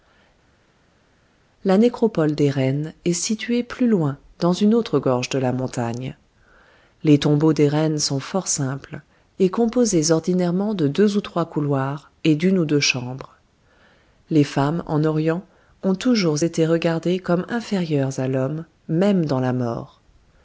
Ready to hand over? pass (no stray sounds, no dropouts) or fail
pass